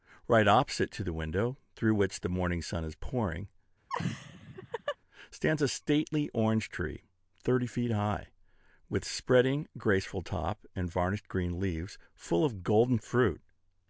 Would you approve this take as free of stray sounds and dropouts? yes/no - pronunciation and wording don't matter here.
no